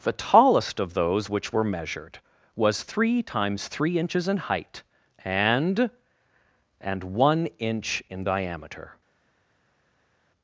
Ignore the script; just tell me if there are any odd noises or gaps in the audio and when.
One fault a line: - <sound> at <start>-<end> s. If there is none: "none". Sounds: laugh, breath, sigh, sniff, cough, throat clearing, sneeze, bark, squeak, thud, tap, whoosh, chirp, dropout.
none